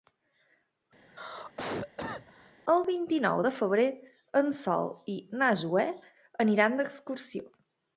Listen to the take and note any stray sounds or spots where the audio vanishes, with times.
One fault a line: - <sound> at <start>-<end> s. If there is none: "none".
- cough at 1.0-2.6 s